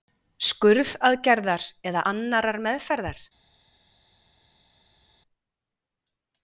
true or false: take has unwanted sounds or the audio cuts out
false